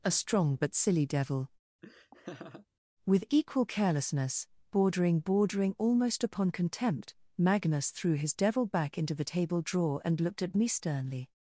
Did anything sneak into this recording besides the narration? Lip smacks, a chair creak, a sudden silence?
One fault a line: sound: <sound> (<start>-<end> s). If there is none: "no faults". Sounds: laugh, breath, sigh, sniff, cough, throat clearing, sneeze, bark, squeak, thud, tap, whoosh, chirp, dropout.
sound: laugh (1.8-2.7 s)